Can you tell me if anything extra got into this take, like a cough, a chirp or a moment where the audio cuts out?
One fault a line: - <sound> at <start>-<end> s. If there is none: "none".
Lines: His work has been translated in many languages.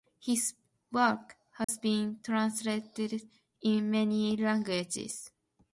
- dropout at 1.6-1.7 s